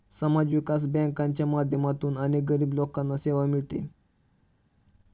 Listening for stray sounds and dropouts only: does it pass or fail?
pass